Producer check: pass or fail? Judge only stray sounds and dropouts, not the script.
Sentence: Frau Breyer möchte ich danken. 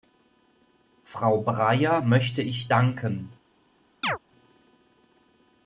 fail